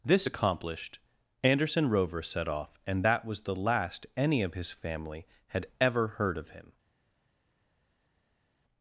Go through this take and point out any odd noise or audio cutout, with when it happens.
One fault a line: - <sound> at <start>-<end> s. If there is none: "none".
none